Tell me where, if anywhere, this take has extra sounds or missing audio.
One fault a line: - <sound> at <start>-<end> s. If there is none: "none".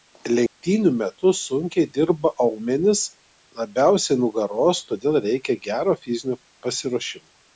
- dropout at 0.5-0.6 s